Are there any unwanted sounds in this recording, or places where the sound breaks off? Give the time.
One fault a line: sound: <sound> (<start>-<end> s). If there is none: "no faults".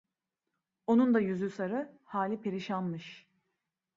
no faults